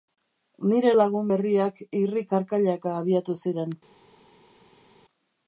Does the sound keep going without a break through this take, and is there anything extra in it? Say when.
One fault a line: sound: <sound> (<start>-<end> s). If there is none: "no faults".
no faults